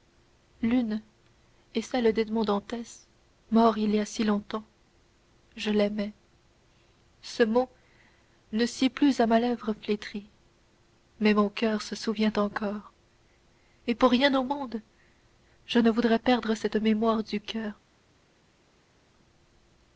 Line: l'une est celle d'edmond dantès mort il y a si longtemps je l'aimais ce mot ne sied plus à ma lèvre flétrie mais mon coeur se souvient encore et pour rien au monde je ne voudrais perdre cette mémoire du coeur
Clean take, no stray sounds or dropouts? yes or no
yes